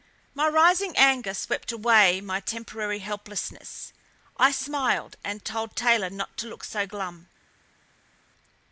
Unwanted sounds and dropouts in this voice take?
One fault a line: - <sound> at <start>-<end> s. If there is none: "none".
none